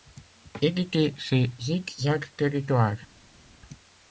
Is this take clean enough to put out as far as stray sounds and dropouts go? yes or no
yes